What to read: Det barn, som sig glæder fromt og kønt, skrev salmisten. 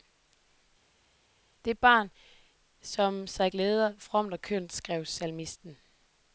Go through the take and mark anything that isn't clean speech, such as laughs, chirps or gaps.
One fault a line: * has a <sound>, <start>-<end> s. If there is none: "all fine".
all fine